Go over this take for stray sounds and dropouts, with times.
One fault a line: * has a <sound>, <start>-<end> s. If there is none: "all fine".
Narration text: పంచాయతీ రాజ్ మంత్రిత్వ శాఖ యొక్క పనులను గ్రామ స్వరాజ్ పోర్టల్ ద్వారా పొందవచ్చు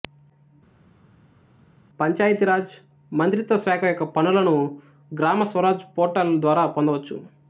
all fine